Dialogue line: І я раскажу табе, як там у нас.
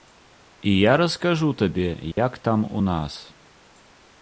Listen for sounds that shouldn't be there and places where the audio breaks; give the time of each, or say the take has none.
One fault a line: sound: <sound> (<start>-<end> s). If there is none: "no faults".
sound: dropout (2.1-2.2 s)